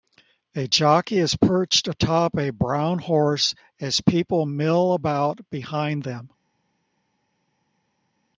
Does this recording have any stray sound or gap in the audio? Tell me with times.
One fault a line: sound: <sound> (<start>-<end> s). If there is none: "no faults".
no faults